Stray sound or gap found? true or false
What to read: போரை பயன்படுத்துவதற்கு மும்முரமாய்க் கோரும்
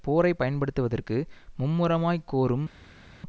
false